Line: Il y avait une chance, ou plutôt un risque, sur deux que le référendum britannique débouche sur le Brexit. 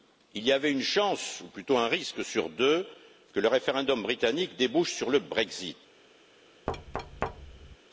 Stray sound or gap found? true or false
true